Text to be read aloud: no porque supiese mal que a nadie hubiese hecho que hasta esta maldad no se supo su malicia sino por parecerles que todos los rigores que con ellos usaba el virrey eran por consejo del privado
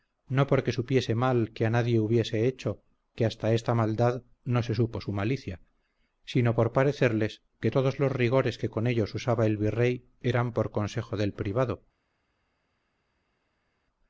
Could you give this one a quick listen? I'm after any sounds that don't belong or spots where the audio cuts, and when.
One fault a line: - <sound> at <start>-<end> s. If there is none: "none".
none